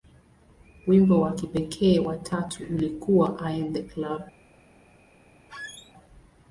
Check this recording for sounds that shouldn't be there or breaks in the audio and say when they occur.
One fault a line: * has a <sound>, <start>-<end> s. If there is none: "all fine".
* has a squeak, 5.5-5.9 s